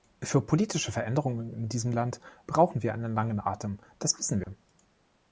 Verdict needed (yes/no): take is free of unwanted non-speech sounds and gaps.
no